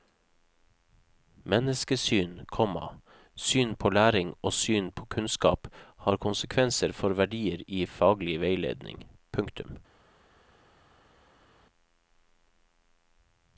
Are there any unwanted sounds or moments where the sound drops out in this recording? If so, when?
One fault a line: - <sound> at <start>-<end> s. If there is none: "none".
none